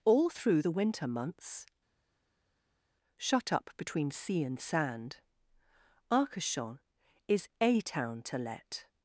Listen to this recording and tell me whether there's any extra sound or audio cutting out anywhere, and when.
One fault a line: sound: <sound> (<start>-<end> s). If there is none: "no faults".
no faults